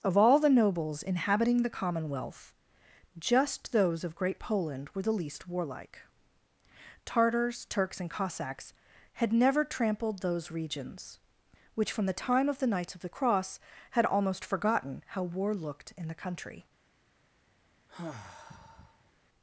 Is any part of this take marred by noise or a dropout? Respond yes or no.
yes